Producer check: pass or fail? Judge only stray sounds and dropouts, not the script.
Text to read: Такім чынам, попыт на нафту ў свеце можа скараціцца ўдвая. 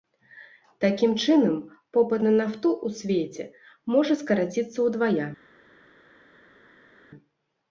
pass